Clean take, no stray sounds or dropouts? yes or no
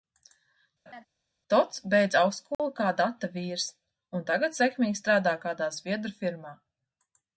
no